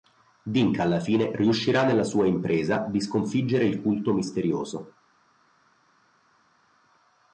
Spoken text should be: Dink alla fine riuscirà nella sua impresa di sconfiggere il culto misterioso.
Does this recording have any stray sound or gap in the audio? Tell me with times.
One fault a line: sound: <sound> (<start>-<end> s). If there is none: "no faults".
no faults